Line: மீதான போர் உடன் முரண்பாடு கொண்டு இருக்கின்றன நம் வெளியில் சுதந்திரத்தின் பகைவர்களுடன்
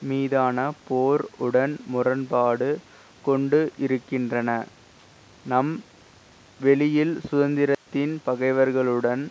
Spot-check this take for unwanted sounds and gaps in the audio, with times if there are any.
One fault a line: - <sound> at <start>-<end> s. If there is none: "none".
- dropout at 7.7-7.9 s